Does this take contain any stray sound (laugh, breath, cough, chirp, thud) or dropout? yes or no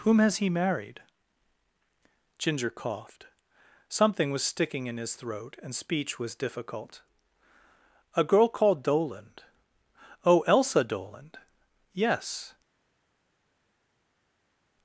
no